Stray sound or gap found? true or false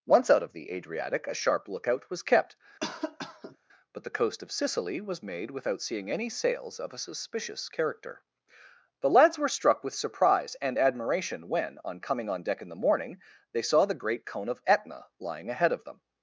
true